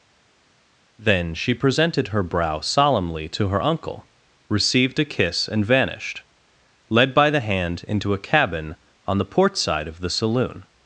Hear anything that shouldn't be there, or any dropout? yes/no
no